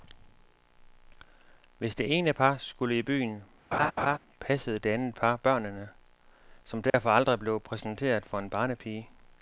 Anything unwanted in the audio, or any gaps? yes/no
yes